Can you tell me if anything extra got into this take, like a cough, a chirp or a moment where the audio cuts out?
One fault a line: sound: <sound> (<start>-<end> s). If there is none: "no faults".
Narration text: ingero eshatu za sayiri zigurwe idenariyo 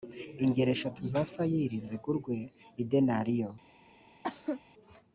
sound: cough (4.2-4.6 s)